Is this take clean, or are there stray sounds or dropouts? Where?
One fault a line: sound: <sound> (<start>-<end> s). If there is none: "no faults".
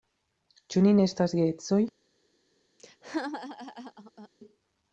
sound: laugh (2.8-4.3 s)